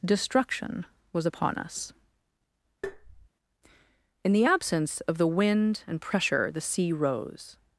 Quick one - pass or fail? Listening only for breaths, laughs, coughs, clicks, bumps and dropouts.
fail